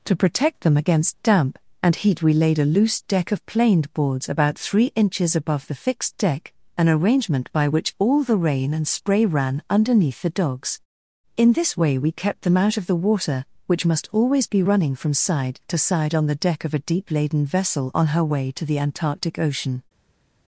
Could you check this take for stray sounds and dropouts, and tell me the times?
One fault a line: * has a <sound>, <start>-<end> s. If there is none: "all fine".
all fine